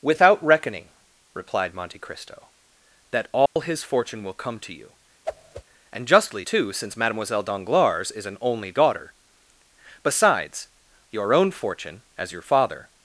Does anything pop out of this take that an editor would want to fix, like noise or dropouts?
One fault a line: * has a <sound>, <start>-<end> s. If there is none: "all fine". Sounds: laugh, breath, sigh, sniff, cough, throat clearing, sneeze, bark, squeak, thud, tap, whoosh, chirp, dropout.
* has a dropout, 3.5-3.6 s
* has a whoosh, 5.2-5.6 s